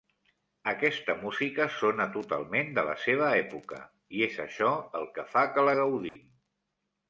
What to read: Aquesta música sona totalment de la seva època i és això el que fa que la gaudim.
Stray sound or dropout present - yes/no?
yes